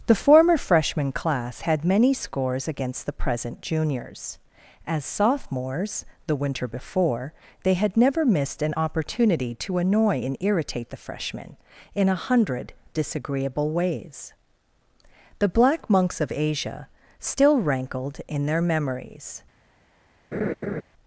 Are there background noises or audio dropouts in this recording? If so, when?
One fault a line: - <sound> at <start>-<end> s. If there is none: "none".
- laugh at 20.3-20.8 s